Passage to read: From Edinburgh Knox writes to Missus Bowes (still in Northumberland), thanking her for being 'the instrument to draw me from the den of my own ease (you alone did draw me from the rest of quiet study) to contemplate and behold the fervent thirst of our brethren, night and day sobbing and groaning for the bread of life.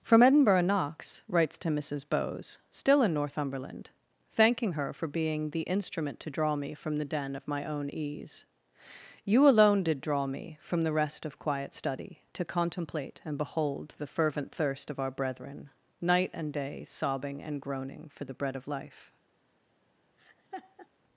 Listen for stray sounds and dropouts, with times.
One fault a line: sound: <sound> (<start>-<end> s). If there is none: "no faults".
sound: laugh (20.2-20.9 s)